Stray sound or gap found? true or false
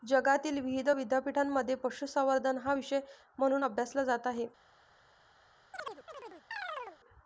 true